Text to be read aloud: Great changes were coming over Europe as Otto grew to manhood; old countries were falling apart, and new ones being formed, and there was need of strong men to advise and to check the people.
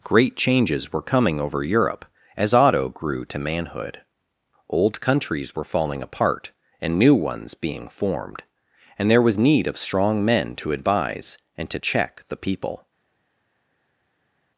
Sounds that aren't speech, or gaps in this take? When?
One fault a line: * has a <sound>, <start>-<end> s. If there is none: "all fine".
all fine